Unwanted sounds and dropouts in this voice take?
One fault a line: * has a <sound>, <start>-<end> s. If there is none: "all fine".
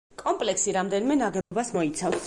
* has a dropout, 1.4-1.5 s